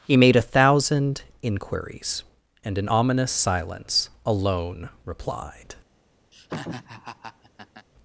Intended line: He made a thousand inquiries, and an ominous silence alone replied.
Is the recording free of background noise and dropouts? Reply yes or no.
no